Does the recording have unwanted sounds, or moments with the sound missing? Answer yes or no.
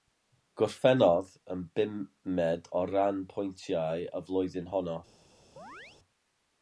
yes